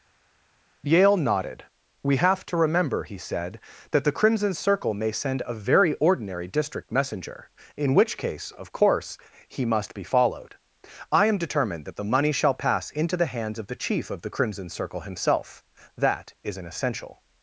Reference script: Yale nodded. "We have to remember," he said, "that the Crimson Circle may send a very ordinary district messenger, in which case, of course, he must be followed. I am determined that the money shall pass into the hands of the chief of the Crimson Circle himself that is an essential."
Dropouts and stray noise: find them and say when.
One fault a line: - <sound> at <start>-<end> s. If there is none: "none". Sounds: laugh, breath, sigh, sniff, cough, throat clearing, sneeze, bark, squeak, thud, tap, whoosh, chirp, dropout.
none